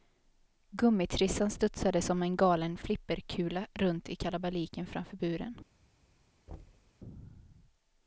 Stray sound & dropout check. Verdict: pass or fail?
fail